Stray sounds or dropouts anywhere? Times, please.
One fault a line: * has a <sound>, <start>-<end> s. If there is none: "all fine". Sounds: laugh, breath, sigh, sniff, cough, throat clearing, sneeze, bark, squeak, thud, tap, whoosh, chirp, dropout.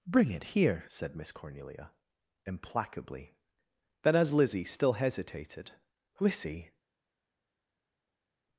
all fine